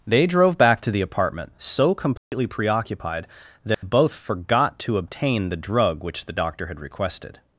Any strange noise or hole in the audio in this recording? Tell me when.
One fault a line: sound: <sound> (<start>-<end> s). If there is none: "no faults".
sound: dropout (2.2-2.3 s)
sound: dropout (3.7-3.8 s)